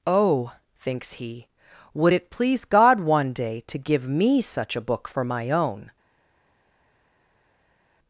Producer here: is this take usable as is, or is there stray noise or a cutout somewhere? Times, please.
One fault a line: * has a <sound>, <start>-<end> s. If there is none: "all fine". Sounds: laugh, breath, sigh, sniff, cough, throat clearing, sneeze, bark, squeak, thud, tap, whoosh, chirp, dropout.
all fine